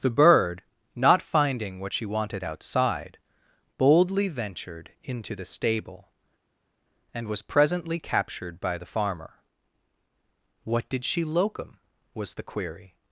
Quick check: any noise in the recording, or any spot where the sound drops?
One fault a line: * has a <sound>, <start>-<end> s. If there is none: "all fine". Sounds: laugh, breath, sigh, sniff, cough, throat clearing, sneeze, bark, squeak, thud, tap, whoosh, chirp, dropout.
all fine